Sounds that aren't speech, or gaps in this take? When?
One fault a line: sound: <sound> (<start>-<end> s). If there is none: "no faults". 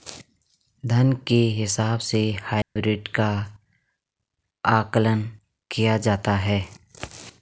sound: dropout (2.6-2.8 s)